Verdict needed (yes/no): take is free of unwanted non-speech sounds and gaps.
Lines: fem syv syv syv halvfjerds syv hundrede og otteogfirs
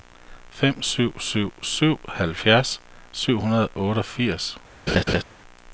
no